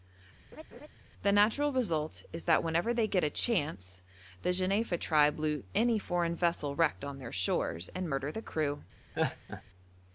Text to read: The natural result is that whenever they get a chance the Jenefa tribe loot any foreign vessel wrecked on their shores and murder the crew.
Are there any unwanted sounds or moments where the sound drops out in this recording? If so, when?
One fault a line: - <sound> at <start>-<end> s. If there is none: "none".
- laugh at 0.5-0.9 s
- laugh at 9.1-9.6 s